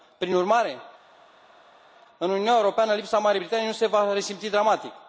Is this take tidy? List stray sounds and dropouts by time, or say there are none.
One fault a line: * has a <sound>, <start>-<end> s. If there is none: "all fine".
all fine